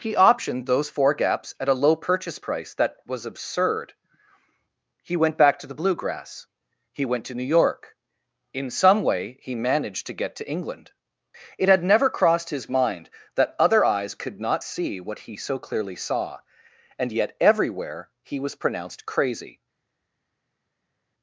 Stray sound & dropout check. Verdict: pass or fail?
pass